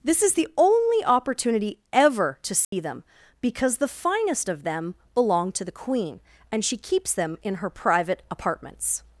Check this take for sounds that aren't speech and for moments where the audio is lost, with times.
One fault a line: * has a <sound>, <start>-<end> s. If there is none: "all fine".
* has a dropout, 2.6-2.7 s